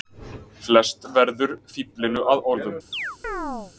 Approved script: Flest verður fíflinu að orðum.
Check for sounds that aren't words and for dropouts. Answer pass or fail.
fail